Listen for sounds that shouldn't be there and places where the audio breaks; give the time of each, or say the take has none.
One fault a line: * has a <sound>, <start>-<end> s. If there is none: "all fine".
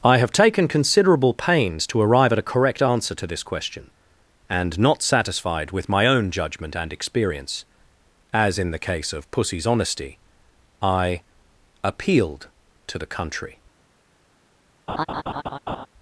* has a laugh, 14.9-15.9 s